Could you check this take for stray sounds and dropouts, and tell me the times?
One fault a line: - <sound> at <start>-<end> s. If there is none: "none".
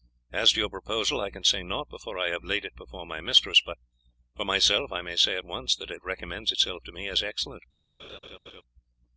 - laugh at 8.0-8.6 s